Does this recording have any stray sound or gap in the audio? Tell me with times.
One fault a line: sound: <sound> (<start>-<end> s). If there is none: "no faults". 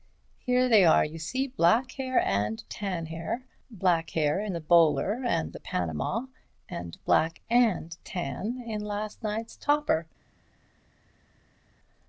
no faults